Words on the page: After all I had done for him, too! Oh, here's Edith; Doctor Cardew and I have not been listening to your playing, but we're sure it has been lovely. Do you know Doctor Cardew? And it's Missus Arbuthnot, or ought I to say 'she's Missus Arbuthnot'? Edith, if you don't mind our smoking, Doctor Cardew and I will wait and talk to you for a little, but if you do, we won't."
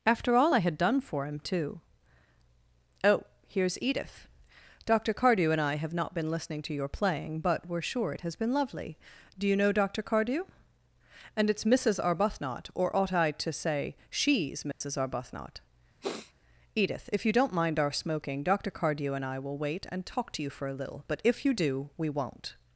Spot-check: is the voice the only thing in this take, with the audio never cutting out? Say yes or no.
no